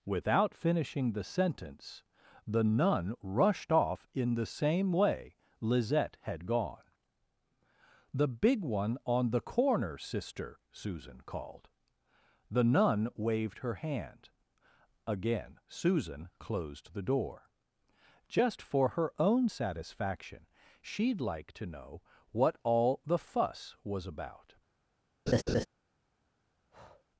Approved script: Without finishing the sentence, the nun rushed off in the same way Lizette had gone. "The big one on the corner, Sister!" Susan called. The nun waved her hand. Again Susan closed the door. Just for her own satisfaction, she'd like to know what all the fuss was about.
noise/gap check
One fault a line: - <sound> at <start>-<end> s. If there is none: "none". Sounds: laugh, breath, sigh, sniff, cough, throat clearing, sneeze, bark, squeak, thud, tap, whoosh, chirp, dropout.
- laugh at 25.3-25.7 s
- breath at 26.7-27.1 s